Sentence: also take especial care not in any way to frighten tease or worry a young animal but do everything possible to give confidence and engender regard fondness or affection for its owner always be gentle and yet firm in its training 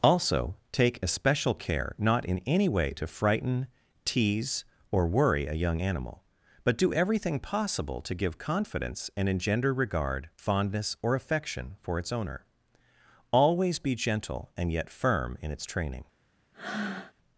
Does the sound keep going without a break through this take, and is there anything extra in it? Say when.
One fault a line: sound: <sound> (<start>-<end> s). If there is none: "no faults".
sound: breath (16.5-17.1 s)